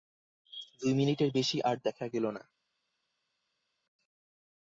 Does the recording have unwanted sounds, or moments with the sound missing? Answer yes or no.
no